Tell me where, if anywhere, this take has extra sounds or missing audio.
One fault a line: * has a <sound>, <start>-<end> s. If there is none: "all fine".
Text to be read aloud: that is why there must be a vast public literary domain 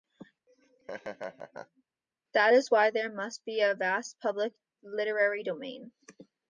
* has a laugh, 0.5-1.8 s